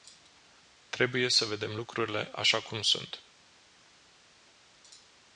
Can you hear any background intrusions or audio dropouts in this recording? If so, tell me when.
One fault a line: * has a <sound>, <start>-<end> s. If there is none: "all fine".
all fine